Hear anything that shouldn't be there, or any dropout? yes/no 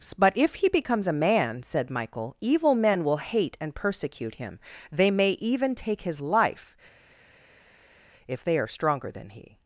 no